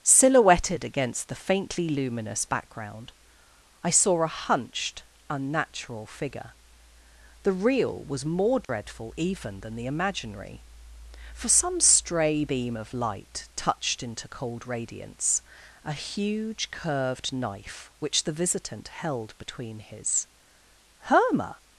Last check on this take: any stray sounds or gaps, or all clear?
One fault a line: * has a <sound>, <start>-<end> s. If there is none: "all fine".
* has a dropout, 8.6-8.7 s